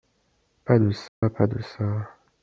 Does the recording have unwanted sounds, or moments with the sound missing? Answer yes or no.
yes